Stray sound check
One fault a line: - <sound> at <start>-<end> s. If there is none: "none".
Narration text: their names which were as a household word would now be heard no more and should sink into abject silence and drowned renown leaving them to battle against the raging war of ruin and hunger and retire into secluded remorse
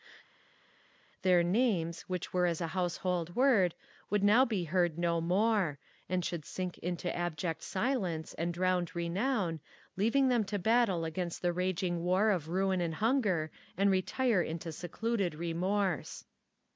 none